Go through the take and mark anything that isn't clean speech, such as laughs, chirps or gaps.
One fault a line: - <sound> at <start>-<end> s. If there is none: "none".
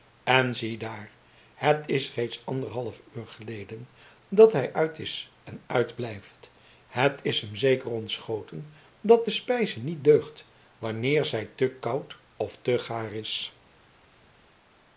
none